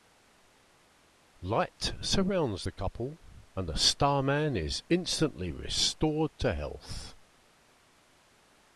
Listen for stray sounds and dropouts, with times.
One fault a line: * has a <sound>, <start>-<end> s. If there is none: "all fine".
all fine